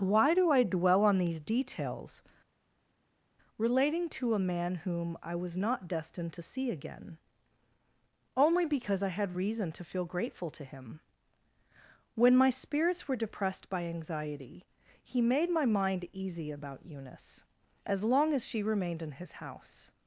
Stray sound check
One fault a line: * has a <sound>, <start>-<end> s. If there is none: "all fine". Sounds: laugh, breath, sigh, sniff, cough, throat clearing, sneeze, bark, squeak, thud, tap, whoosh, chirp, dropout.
all fine